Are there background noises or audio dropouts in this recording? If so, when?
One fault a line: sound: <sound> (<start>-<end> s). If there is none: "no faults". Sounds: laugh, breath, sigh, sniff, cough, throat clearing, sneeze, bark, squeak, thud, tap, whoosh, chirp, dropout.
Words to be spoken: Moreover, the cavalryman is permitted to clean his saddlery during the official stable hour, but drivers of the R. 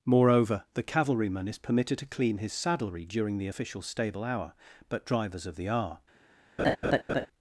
sound: laugh (6.6-7.3 s)